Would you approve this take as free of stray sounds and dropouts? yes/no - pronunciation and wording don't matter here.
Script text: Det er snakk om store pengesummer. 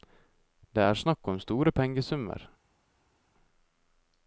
yes